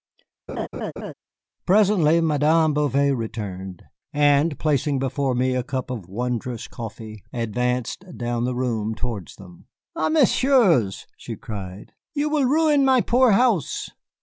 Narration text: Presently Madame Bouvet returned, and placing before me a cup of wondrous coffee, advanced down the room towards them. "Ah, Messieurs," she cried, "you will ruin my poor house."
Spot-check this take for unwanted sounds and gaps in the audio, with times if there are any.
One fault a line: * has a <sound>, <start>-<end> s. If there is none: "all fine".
* has a laugh, 0.5-1.1 s